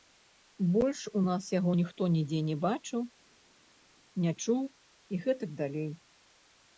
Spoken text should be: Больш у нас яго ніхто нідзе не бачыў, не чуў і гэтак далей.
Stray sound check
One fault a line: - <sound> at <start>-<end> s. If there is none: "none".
none